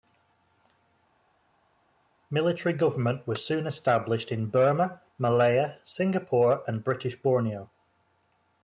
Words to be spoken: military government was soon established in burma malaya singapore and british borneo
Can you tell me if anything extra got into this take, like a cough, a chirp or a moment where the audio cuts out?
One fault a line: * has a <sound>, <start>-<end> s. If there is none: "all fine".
all fine